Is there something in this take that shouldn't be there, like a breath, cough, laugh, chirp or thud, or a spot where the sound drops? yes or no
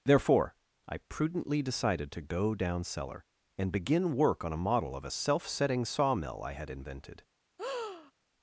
yes